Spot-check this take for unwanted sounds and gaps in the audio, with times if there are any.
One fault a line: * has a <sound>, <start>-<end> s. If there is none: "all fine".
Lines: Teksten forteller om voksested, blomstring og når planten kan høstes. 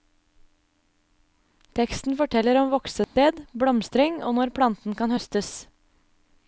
* has a dropout, 3.0-3.2 s